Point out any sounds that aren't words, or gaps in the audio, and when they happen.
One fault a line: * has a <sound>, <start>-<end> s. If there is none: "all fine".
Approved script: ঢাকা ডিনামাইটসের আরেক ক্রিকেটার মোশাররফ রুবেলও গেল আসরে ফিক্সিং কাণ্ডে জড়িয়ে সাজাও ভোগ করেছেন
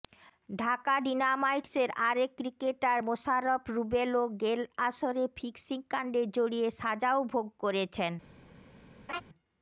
* has a laugh, 9.1-9.2 s